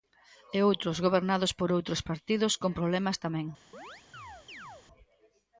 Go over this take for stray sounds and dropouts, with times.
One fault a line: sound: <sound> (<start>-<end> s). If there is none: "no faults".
sound: chirp (3.7-4.9 s)